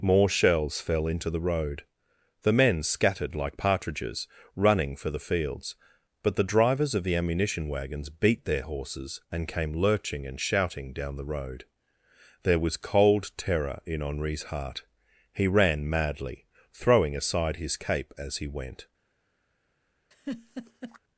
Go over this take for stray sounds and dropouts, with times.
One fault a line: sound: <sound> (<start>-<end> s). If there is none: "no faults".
sound: laugh (20.1-21.0 s)